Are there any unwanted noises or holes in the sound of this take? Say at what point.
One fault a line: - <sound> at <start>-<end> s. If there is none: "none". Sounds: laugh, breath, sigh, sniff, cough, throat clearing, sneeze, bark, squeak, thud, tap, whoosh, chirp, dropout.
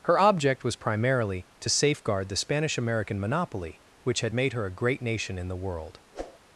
- whoosh at 6.1-6.4 s